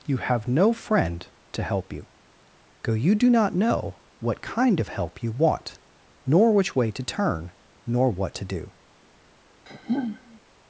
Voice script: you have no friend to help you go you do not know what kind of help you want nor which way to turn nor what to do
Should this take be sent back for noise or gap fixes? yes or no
yes